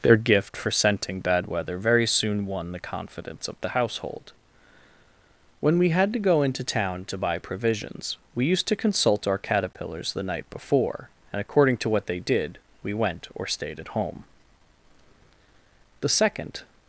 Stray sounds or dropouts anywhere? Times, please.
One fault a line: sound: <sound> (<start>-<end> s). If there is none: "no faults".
no faults